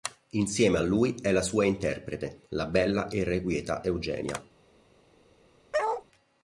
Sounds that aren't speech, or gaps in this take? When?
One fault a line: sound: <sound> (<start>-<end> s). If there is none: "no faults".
sound: bark (5.7-6.0 s)